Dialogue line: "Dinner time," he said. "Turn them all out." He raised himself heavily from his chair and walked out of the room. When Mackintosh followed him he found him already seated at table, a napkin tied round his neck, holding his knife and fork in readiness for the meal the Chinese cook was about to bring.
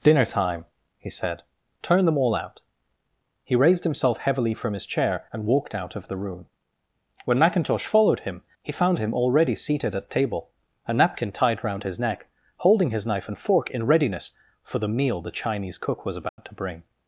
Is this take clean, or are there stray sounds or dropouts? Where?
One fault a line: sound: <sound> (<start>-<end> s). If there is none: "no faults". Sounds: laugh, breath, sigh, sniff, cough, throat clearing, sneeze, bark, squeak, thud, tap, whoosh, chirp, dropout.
sound: dropout (16.3-16.4 s)